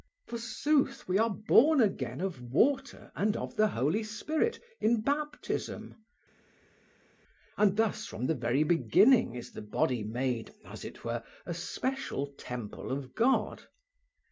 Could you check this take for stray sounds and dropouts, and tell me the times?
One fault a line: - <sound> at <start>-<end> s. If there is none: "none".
none